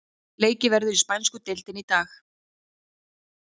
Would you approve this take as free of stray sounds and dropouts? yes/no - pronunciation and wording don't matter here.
yes